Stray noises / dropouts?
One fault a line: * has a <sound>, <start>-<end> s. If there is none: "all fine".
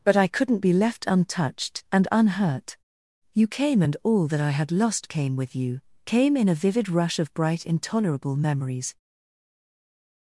all fine